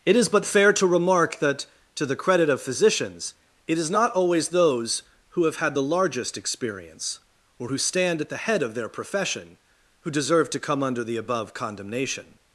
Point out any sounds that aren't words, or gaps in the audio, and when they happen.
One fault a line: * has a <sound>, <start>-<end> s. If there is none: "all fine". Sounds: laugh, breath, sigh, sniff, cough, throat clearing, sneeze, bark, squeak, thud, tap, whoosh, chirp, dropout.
all fine